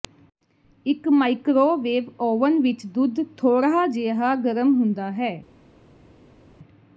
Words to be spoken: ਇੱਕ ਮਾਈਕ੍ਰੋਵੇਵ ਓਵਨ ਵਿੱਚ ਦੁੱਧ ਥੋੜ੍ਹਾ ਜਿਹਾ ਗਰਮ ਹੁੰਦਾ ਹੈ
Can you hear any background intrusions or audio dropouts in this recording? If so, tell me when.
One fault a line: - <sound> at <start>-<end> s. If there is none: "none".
none